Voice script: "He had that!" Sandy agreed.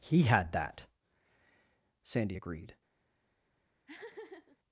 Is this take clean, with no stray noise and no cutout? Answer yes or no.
no